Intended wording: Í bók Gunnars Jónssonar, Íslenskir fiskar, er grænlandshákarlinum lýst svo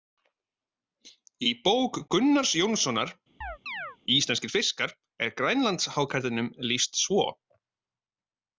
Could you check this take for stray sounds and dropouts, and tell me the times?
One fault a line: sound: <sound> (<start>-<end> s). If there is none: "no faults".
sound: chirp (3.4-4.0 s)